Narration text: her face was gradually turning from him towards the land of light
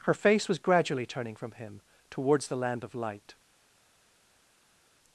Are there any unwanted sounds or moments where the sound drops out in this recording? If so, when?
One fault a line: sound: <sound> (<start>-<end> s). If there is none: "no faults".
no faults